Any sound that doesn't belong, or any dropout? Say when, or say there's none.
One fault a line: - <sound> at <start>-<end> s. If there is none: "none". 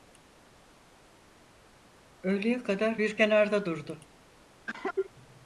- cough at 4.7-5.1 s